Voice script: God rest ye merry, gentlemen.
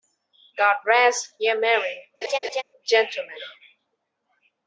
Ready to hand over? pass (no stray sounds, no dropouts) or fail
fail